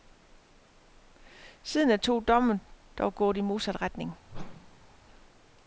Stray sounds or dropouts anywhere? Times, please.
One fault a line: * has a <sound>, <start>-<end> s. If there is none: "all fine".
* has a whoosh, 4.3-5.0 s